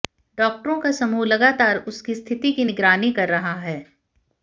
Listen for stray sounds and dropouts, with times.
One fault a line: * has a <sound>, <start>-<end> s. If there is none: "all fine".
all fine